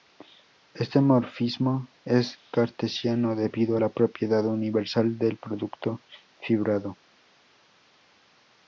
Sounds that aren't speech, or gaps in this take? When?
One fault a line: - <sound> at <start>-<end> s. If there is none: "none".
none